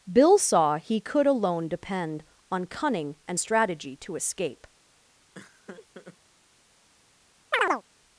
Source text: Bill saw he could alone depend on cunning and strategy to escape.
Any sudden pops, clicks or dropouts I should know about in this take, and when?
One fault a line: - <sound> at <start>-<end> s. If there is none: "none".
- laugh at 5.3-6.2 s
- chirp at 7.5-7.8 s